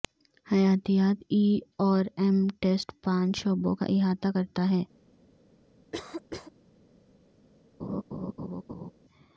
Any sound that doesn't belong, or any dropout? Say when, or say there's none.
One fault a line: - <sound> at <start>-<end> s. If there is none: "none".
- cough at 5.9-6.5 s
- laugh at 7.8-8.9 s